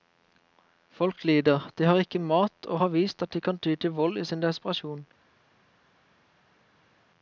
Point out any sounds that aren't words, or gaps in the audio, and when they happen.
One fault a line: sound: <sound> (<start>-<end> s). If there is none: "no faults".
no faults